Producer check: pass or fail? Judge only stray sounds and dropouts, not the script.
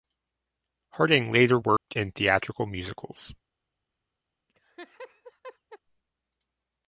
fail